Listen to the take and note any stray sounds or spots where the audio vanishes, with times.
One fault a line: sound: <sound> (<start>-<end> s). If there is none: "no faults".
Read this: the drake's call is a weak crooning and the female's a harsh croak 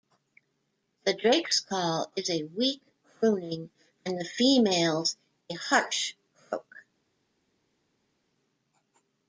no faults